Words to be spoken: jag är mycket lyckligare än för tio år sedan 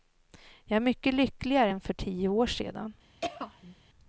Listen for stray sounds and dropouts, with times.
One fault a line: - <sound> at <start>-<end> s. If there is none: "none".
- throat clearing at 3.2-3.7 s